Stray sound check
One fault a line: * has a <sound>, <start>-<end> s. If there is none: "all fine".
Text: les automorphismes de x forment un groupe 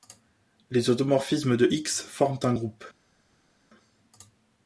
all fine